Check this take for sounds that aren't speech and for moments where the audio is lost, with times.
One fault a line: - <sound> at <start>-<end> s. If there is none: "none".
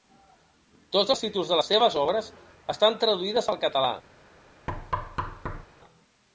- thud at 4.7-5.7 s